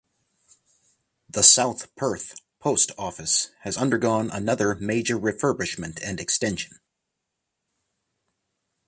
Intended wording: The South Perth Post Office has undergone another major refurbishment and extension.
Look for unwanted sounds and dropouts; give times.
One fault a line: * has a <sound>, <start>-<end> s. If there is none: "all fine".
all fine